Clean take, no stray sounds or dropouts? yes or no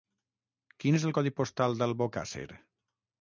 yes